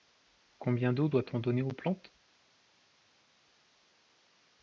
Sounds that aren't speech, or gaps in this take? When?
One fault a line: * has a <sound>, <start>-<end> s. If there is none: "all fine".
all fine